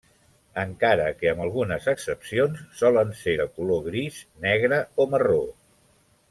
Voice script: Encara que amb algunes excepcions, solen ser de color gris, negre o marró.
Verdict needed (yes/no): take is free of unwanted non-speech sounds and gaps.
yes